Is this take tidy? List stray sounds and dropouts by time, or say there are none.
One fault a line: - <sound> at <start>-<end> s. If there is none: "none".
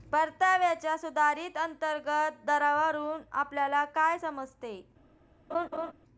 - laugh at 5.5-5.9 s